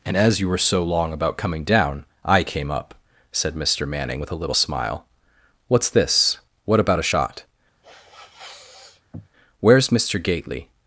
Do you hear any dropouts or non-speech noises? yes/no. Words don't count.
yes